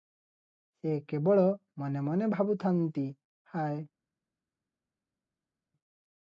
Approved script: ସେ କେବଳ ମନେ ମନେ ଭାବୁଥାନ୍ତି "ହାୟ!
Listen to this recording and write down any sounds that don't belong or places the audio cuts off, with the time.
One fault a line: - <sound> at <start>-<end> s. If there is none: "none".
none